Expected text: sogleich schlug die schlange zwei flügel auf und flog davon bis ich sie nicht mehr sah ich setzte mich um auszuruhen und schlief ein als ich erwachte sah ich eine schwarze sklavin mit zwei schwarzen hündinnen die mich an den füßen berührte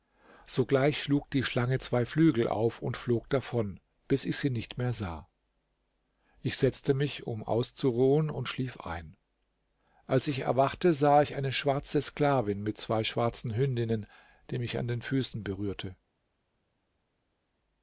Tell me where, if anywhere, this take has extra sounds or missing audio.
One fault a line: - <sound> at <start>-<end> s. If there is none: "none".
none